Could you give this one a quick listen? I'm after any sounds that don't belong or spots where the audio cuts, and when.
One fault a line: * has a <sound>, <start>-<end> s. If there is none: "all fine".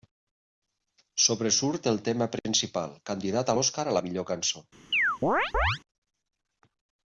* has a chirp, 4.9-5.8 s